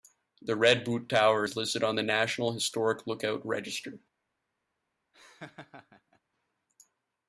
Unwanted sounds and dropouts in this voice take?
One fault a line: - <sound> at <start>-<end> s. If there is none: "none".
- laugh at 5.1-6.2 s